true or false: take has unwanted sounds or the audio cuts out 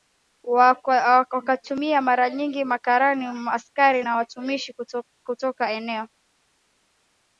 false